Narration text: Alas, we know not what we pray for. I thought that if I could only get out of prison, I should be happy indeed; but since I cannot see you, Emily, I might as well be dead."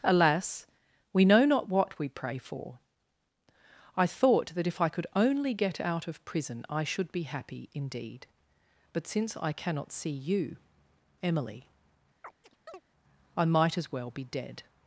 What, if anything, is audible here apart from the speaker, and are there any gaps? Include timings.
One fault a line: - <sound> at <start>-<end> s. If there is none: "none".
- chirp at 12.2-12.8 s